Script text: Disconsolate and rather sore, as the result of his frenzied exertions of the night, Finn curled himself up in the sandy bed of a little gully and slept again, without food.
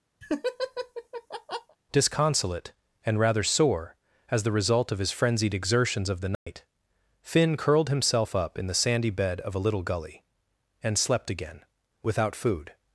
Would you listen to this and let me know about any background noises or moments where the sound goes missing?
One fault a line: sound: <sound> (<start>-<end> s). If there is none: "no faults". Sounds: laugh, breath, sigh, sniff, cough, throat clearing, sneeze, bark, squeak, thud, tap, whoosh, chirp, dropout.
sound: laugh (0.2-1.8 s)
sound: dropout (6.3-6.5 s)